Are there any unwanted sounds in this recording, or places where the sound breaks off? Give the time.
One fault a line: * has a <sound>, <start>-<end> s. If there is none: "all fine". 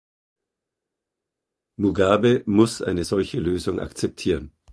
all fine